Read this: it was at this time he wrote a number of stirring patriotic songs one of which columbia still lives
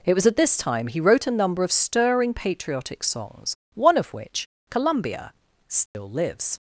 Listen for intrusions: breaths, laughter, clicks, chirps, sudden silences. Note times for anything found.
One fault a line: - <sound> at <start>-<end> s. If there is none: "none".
- dropout at 5.9-5.9 s